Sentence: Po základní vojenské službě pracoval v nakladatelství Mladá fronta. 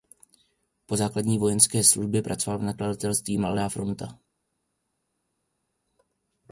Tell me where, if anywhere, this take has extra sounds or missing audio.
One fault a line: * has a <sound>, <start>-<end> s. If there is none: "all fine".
all fine